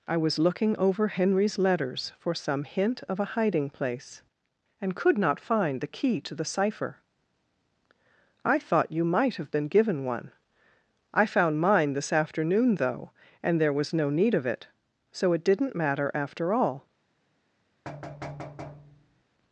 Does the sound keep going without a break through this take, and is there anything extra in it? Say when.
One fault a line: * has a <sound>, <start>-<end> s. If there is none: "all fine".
* has a thud, 17.8-19.2 s